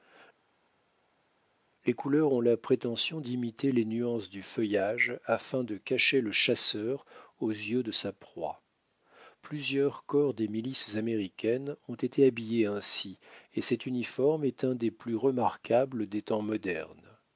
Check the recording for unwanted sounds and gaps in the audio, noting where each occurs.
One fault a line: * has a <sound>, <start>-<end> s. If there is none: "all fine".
all fine